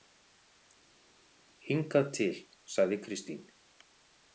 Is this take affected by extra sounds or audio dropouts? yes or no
no